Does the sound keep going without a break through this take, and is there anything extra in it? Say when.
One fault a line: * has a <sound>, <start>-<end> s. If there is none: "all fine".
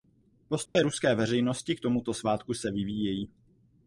* has a dropout, 0.7-0.8 s